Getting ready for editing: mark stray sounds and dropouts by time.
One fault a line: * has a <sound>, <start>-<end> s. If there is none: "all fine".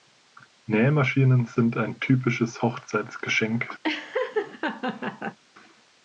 * has a laugh, 3.8-5.4 s